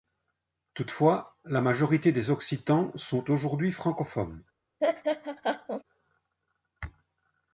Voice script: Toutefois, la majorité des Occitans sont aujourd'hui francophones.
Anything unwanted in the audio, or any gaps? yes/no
yes